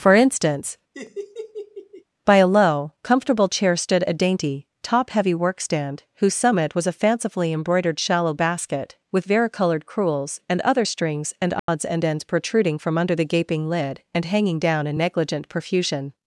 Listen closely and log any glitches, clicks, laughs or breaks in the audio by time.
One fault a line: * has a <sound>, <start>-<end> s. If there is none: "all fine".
* has a laugh, 0.9-2.0 s
* has a dropout, 11.6-11.7 s